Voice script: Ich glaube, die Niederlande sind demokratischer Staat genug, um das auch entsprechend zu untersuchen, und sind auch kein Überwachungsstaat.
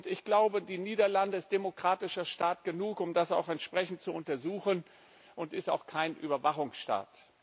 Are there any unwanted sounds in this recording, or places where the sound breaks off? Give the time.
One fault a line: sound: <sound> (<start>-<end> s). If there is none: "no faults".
no faults